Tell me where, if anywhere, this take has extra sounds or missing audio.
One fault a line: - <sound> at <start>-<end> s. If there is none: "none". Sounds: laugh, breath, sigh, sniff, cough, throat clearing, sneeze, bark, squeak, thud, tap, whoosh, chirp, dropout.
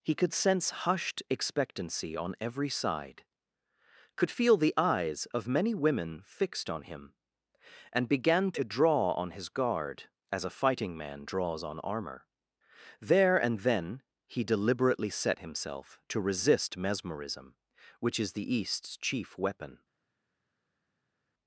none